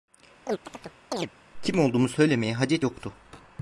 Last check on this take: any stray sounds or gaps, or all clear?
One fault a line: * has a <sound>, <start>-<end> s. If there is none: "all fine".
* has a chirp, 0.5-1.3 s